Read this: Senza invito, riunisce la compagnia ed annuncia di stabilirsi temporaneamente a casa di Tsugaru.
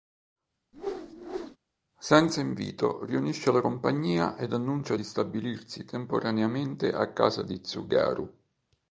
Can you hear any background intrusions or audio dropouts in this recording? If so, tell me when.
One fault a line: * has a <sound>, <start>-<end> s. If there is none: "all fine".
* has a whoosh, 0.7-1.6 s